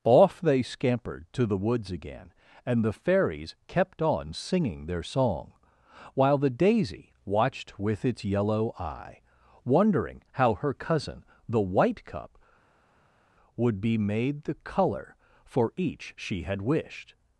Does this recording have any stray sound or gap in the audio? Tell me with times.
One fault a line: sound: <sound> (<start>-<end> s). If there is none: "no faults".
no faults